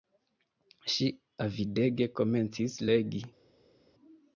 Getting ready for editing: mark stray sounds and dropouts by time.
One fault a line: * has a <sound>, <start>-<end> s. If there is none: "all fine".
all fine